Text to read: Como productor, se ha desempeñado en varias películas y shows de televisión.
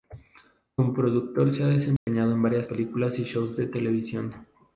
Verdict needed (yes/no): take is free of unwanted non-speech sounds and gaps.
no